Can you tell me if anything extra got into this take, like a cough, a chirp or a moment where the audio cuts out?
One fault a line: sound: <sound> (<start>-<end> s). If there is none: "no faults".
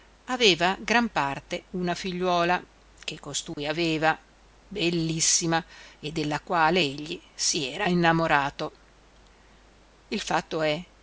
sound: dropout (3.5-3.6 s)